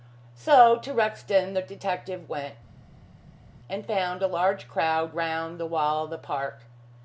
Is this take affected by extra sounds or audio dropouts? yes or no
no